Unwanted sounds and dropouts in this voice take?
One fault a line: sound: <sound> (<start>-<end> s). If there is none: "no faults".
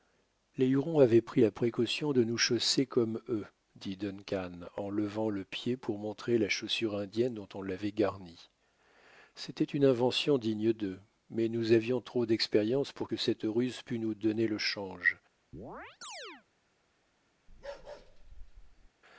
sound: chirp (15.5-16.5 s)
sound: bark (17.5-18.9 s)